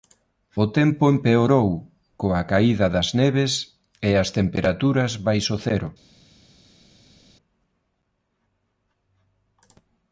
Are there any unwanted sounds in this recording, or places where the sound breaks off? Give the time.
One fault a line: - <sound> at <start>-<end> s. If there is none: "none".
none